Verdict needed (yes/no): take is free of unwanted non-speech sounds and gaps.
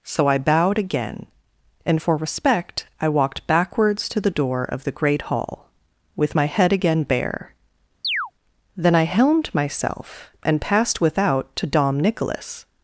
no